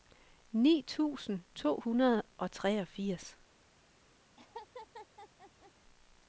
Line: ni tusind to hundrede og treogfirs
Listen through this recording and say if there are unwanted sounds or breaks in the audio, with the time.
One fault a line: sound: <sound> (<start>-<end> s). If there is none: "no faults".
sound: laugh (4.4-5.7 s)